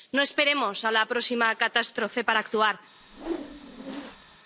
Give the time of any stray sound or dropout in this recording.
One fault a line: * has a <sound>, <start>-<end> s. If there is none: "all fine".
* has a whoosh, 3.0-4.4 s